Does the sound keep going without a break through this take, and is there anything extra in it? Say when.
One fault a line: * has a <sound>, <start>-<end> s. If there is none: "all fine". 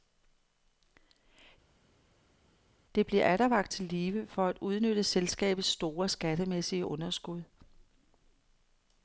all fine